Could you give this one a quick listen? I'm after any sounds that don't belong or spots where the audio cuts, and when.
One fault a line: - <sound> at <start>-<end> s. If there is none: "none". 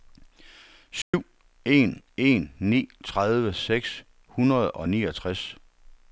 - dropout at 1.0-1.1 s